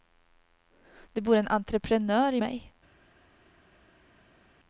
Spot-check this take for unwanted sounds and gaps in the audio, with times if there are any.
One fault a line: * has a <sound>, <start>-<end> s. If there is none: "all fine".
all fine